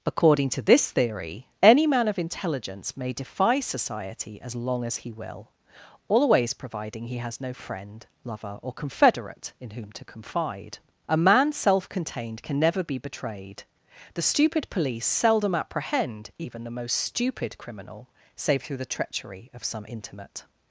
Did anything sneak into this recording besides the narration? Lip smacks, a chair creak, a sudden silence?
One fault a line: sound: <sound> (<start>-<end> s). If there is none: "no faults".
no faults